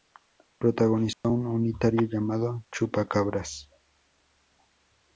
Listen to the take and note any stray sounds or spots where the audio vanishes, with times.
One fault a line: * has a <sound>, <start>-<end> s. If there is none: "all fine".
* has a dropout, 1.1-1.2 s